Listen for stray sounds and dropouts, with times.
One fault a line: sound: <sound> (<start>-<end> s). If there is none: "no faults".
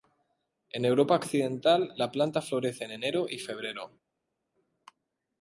no faults